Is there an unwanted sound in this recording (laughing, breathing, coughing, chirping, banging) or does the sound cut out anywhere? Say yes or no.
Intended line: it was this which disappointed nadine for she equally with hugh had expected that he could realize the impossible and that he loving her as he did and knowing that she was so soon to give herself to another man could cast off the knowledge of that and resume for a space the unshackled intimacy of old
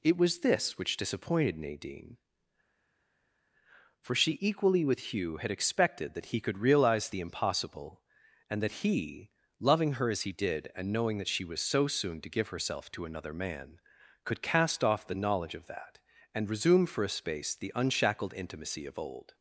no